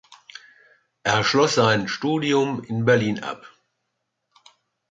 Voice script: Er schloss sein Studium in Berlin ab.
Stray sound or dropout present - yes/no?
no